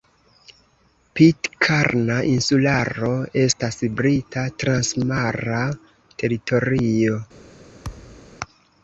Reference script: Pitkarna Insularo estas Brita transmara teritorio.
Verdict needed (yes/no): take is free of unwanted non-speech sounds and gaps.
no